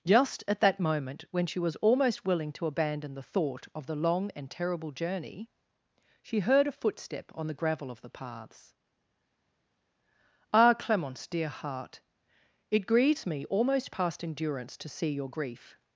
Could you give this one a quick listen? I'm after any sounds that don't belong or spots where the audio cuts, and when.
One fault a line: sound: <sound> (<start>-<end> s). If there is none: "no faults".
no faults